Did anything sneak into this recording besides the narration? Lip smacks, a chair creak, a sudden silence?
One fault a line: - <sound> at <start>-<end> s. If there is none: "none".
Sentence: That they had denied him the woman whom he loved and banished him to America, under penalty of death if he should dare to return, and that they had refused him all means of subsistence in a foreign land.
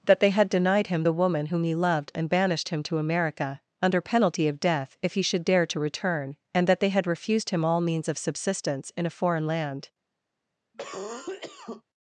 - cough at 10.7-11.8 s